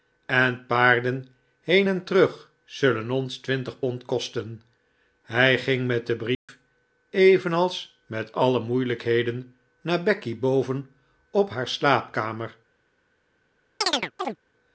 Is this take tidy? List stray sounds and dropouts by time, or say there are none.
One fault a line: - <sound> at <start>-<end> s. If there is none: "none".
- dropout at 6.3-6.5 s
- chirp at 13.8-14.4 s